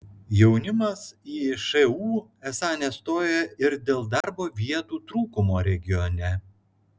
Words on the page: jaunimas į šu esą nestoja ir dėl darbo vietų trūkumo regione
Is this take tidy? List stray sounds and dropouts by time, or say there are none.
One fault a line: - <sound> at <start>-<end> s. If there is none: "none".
- dropout at 4.2-4.2 s